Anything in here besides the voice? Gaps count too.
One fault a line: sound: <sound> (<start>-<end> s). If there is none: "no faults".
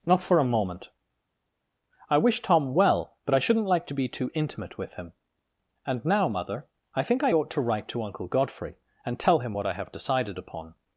no faults